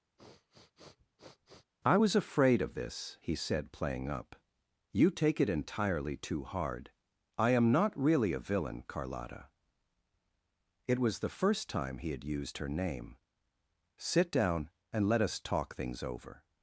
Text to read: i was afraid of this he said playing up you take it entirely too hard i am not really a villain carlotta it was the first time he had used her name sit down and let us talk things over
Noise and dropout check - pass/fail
fail